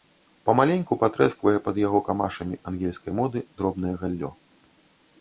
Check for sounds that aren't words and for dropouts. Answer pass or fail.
pass